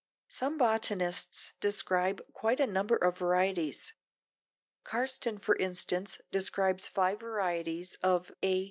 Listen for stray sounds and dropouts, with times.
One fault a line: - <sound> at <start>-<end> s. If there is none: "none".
none